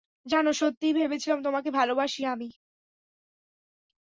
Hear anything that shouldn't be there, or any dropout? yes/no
no